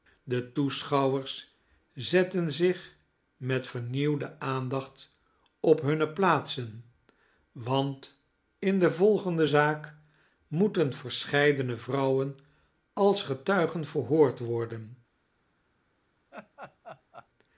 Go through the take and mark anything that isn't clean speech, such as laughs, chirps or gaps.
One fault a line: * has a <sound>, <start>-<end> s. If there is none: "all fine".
* has a laugh, 16.3-17.3 s